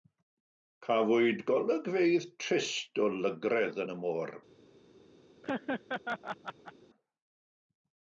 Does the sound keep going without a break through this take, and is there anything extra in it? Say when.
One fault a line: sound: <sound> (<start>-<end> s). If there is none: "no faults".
sound: laugh (5.4-6.7 s)